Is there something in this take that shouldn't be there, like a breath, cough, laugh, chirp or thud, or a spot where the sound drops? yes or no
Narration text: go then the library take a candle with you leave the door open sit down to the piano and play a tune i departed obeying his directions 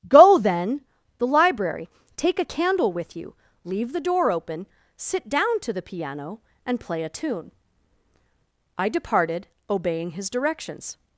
no